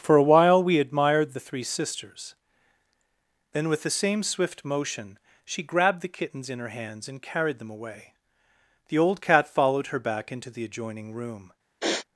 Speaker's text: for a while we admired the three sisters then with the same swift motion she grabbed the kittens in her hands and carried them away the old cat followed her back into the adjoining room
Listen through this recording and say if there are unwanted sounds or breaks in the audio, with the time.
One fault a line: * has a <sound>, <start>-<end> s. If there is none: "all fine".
* has a sniff, 11.8-12.1 s